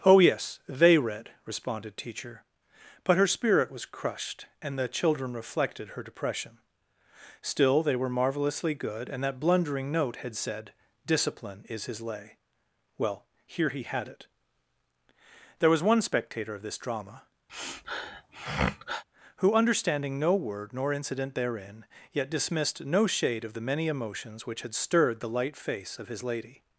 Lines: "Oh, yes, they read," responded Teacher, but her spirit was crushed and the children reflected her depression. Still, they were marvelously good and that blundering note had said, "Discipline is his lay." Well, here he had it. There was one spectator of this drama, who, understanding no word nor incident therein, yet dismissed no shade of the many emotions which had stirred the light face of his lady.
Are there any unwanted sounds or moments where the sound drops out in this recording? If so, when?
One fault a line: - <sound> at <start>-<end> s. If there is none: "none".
- sniff at 17.5-19.0 s